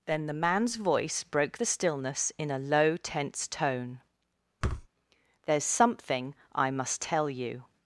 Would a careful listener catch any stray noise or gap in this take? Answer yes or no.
yes